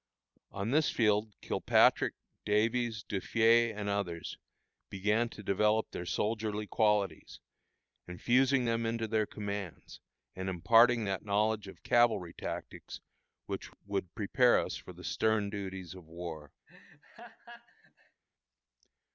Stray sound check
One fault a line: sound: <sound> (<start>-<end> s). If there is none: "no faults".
sound: laugh (16.7-18.2 s)